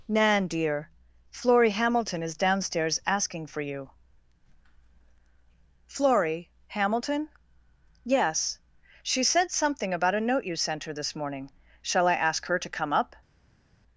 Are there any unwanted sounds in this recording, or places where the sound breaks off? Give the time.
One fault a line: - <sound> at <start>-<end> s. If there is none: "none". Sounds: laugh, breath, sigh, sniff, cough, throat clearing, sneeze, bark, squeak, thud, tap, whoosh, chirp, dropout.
none